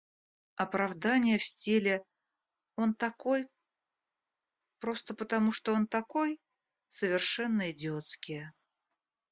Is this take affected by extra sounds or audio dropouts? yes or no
no